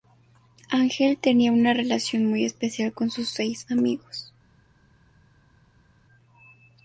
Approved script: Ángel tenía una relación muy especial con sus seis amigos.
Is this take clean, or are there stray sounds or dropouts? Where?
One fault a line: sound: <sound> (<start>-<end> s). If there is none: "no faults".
no faults